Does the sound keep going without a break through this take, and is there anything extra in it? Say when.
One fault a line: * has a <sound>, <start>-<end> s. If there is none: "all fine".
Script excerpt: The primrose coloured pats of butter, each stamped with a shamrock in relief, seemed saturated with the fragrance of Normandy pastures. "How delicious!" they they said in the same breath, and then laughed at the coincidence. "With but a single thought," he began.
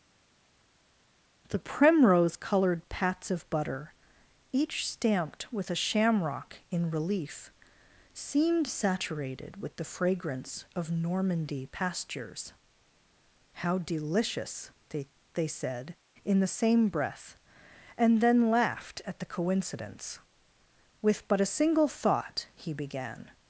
all fine